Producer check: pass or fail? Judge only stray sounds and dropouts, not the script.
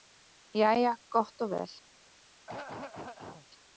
fail